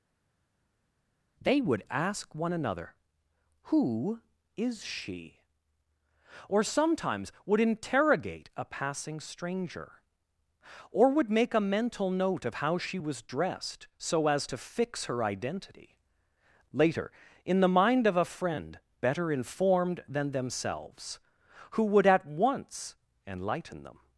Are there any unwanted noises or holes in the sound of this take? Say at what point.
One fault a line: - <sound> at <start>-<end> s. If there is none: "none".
none